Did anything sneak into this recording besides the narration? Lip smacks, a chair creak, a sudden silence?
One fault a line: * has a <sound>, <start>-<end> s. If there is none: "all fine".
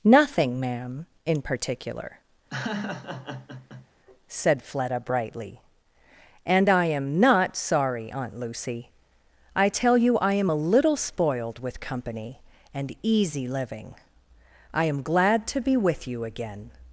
* has a laugh, 2.5-3.9 s